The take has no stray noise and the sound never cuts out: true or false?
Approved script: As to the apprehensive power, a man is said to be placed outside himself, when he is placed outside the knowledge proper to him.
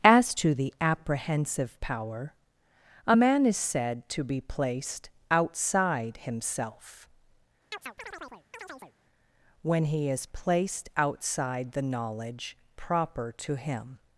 false